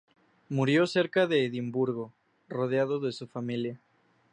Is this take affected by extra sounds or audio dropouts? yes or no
no